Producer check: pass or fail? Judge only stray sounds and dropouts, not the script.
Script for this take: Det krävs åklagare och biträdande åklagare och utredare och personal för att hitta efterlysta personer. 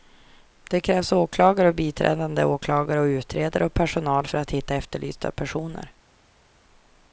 pass